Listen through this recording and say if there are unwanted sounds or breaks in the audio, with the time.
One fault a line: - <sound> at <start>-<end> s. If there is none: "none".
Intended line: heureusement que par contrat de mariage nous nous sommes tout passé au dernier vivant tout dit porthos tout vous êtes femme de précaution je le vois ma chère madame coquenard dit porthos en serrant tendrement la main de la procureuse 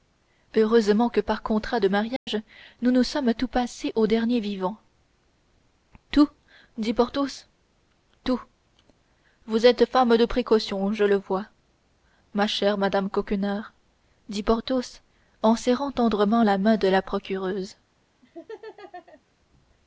- dropout at 2.2-2.3 s
- laugh at 18.2-19.2 s